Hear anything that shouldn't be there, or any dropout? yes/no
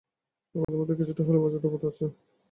yes